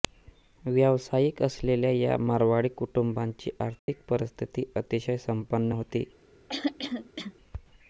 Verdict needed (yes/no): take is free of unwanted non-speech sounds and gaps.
no